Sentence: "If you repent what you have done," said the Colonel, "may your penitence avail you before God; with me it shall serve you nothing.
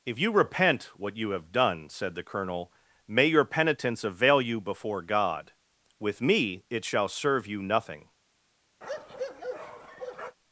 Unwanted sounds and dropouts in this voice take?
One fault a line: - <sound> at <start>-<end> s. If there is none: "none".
- bark at 8.8-10.4 s